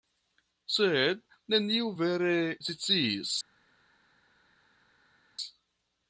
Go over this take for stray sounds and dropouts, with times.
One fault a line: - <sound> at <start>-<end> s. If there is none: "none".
none